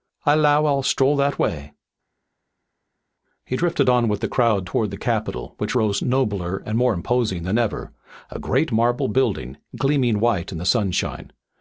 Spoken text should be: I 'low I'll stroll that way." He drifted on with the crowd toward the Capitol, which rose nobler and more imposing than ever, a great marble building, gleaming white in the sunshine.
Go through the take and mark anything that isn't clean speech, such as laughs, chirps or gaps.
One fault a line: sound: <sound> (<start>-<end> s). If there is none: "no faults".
no faults